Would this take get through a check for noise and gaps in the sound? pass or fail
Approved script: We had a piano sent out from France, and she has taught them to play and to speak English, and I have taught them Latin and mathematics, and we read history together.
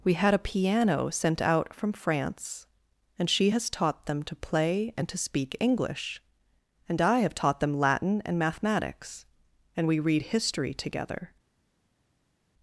pass